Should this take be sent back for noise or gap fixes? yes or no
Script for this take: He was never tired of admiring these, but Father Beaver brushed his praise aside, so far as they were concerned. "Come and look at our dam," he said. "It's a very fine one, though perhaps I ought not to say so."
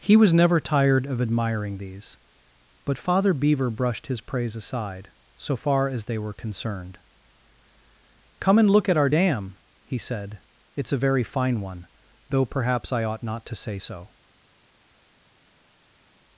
no